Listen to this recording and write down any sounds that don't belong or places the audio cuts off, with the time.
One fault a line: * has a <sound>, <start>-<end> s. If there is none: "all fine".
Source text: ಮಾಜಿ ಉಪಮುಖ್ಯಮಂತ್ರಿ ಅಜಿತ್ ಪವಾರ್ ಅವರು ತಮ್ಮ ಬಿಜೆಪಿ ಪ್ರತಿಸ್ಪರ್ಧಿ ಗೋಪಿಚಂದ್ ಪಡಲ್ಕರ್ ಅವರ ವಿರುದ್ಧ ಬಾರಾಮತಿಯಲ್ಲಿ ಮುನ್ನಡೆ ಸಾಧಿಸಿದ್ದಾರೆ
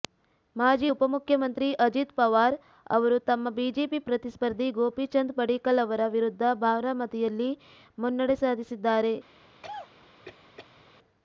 * has a cough, 9.6-10.9 s